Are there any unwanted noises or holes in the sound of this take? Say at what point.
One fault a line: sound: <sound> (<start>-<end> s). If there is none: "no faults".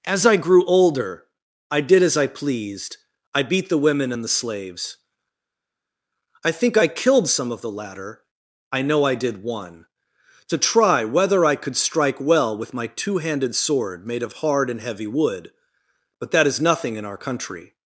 no faults